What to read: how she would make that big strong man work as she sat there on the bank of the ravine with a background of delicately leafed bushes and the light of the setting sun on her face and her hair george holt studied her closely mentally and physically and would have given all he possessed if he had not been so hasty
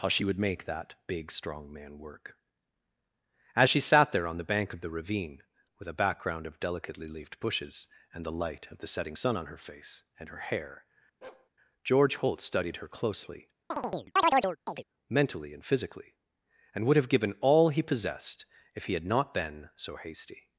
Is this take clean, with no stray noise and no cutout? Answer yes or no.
no